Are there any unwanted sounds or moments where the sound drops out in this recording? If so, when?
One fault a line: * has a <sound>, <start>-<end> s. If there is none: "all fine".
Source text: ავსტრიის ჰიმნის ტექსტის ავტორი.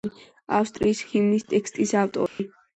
* has a dropout, 2.3-2.4 s